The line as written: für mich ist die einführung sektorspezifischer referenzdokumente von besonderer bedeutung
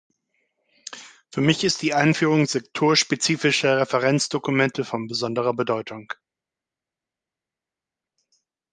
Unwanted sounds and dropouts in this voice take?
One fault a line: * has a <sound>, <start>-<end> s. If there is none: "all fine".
all fine